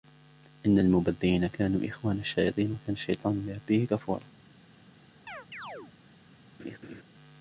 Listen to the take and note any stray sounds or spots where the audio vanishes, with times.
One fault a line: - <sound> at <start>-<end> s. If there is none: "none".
- chirp at 5.3-5.9 s
- laugh at 6.6-7.0 s